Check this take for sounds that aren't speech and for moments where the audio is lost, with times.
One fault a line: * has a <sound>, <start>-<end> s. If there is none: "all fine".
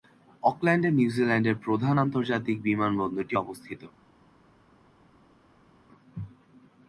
all fine